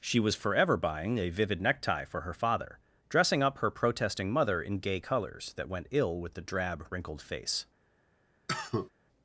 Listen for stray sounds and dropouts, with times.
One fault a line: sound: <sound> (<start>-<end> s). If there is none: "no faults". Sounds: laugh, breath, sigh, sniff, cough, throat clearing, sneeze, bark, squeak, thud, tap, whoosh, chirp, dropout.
sound: cough (8.5-8.9 s)